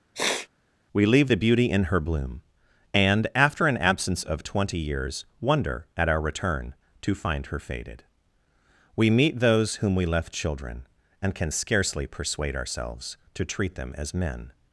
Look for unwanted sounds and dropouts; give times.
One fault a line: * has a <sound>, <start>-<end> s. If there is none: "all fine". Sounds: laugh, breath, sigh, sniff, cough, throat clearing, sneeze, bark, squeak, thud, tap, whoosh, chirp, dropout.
* has a sniff, 0.1-0.5 s